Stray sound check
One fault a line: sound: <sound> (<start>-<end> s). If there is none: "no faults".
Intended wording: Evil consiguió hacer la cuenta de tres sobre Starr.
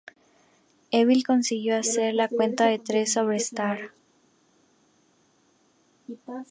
no faults